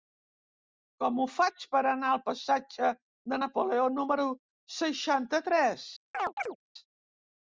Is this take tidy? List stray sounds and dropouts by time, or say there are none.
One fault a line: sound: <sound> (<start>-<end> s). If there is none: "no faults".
sound: chirp (6.1-6.6 s)